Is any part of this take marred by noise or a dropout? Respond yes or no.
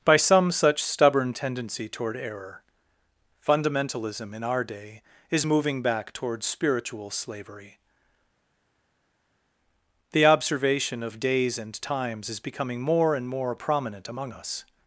no